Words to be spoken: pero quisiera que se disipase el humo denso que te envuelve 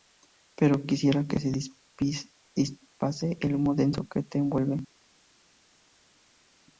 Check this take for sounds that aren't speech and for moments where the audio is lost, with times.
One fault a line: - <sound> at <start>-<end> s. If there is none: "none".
none